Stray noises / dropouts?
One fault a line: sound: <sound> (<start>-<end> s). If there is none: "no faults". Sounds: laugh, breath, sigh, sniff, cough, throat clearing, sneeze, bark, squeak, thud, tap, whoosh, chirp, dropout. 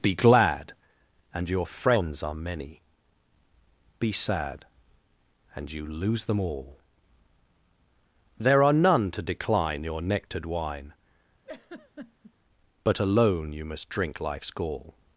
sound: laugh (11.4-12.3 s)